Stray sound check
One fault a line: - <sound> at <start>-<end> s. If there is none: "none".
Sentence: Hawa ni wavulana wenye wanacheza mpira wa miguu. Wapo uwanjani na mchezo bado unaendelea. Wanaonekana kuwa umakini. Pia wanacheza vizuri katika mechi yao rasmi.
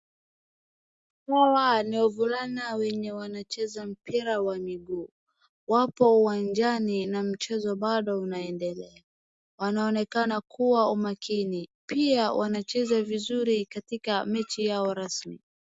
none